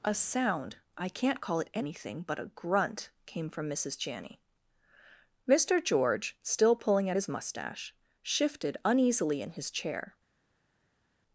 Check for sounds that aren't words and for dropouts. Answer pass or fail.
pass